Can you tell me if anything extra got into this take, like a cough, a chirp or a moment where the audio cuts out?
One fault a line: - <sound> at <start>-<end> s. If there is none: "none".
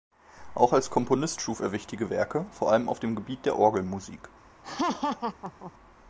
- laugh at 4.6-5.7 s